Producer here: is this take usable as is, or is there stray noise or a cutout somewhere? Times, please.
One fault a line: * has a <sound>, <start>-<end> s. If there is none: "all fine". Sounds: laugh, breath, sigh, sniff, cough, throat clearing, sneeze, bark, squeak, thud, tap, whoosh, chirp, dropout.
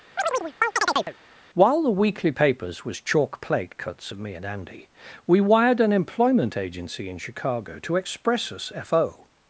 * has a chirp, 0.2-1.2 s